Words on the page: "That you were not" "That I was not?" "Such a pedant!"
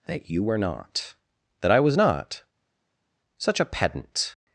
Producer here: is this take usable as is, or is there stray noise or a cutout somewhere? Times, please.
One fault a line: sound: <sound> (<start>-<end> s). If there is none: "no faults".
no faults